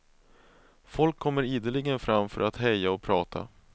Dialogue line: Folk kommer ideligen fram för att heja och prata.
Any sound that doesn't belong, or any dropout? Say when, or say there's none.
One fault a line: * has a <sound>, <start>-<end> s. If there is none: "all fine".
all fine